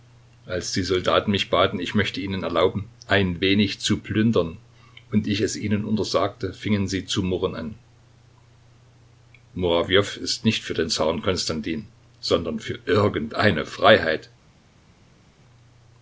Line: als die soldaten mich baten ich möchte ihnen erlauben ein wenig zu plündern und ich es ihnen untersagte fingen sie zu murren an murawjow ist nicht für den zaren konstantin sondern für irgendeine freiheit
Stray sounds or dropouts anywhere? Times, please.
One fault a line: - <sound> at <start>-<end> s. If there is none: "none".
none